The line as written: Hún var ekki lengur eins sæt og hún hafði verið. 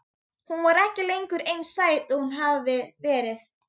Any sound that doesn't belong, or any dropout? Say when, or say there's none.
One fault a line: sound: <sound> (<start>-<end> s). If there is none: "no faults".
no faults